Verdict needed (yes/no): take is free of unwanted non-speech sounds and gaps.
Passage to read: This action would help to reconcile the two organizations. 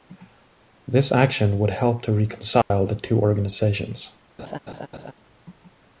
no